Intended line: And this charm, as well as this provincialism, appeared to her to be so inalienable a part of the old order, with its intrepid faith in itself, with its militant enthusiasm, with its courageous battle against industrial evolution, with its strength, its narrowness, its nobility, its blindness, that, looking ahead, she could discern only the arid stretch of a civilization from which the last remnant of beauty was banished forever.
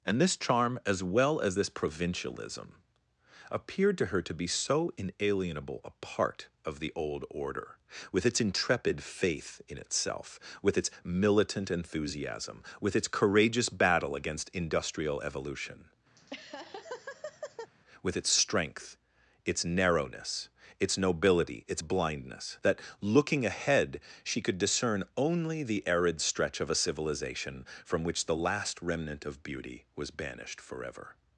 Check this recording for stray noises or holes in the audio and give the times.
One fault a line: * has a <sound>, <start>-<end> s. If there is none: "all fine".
* has a laugh, 16.2-17.7 s